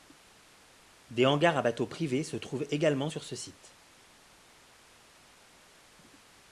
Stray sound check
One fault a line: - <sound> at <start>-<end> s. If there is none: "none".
none